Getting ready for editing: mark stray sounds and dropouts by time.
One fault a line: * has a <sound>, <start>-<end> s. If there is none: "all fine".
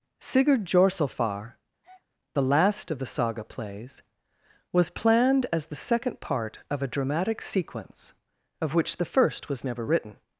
* has a breath, 1.8-2.1 s